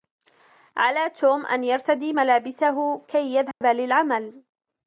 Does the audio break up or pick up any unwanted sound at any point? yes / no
yes